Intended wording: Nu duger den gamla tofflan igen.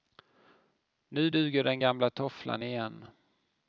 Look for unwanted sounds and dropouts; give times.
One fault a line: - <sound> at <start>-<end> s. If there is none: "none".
none